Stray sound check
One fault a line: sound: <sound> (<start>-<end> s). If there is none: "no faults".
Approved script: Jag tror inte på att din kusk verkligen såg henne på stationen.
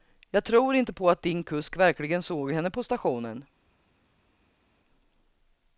no faults